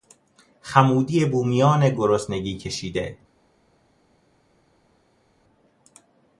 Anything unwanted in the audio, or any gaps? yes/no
no